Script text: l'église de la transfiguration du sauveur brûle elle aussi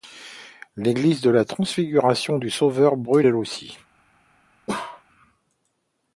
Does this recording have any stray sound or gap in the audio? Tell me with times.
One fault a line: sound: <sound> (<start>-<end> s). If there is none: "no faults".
sound: bark (4.7-5.0 s)